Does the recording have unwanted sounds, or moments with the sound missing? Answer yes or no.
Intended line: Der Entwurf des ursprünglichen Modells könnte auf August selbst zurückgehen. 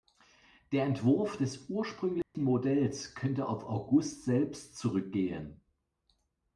yes